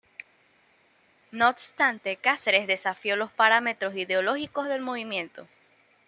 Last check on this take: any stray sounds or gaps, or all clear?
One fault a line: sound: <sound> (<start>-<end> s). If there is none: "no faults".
no faults